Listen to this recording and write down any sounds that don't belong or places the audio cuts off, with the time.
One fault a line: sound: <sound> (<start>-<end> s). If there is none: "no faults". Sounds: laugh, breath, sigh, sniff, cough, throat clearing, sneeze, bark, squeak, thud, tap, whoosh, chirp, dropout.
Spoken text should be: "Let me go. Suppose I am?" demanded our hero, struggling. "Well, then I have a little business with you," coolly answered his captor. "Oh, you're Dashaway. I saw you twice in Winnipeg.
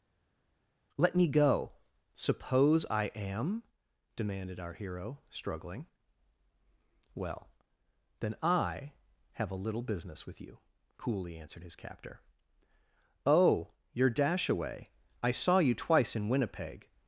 no faults